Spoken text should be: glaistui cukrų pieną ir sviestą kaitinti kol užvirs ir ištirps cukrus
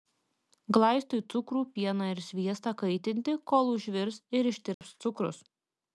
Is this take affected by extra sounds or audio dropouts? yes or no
yes